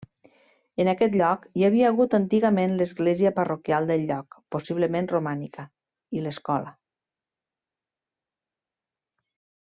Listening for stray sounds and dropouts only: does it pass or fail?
pass